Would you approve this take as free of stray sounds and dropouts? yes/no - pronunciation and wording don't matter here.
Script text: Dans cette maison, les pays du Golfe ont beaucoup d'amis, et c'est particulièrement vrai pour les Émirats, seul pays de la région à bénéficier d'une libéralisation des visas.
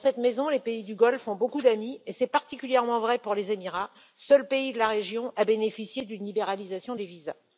yes